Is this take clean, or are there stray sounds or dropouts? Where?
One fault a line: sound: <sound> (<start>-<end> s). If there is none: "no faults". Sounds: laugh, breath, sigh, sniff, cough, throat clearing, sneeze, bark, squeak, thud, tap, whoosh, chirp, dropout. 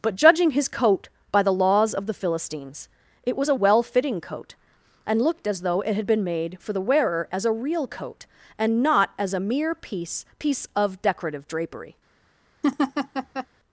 sound: laugh (12.6-13.5 s)